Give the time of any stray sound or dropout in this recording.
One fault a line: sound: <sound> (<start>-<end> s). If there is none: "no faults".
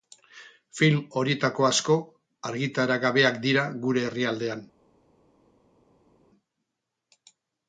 no faults